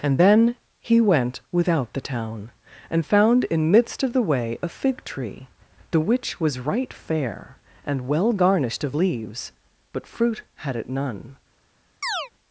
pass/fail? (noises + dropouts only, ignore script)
fail